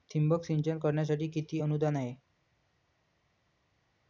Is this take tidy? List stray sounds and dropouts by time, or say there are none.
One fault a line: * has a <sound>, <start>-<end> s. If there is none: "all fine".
all fine